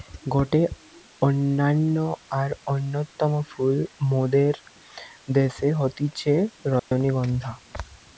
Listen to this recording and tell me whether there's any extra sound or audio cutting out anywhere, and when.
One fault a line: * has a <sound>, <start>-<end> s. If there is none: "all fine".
* has a dropout, 6.8-6.9 s